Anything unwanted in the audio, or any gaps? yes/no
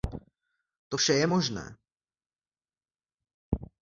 no